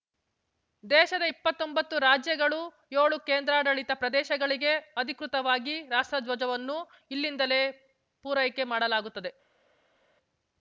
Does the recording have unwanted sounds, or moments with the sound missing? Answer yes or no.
no